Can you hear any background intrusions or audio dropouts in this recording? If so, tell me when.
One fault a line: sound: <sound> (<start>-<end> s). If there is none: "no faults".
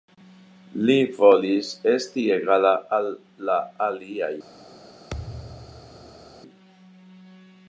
sound: thud (5.1-6.4 s)